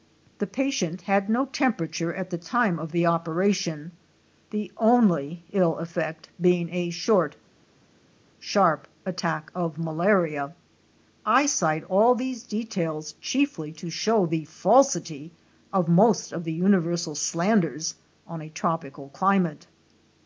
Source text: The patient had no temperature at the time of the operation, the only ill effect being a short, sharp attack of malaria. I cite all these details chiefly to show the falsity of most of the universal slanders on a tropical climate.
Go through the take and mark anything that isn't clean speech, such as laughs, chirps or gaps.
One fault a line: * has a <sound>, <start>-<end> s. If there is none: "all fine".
all fine